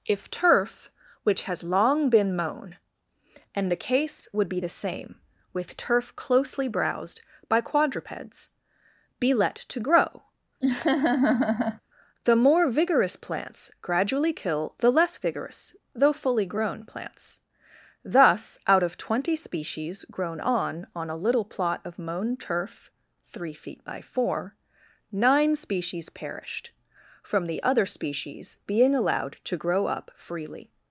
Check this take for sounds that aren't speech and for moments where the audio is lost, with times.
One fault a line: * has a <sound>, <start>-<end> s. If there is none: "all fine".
* has a laugh, 10.6-11.8 s